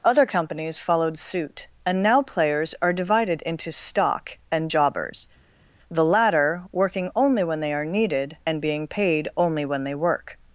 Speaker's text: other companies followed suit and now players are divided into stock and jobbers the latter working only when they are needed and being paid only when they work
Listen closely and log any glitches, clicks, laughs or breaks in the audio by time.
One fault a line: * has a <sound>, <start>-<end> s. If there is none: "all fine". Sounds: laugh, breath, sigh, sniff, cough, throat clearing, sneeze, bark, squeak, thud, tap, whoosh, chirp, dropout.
all fine